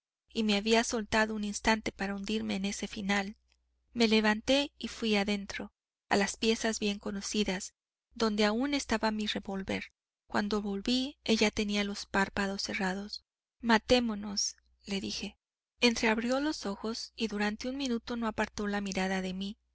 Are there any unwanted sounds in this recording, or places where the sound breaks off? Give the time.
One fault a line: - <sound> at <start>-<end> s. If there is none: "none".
none